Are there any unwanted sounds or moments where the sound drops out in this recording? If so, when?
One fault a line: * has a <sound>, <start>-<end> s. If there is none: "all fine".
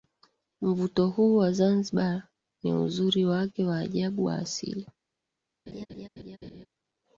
* has a laugh, 5.7-6.7 s